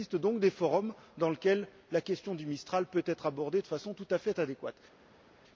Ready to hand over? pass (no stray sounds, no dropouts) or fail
pass